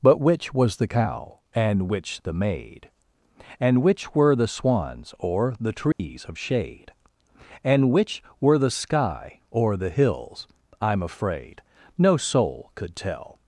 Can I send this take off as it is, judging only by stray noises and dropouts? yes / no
no